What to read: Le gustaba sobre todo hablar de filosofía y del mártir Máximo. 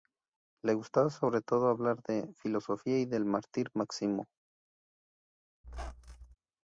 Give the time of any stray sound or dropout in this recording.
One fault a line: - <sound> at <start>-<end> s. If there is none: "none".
- squeak at 5.6-6.4 s